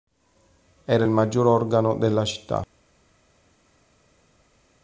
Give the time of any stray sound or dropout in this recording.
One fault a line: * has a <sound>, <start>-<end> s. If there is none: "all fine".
all fine